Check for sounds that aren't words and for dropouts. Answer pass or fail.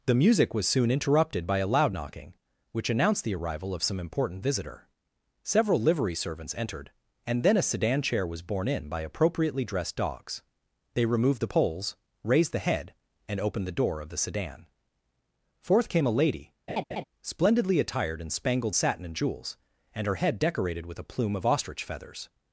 fail